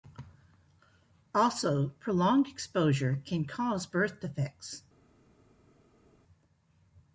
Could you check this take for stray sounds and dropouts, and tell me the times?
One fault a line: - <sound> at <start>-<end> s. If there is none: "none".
none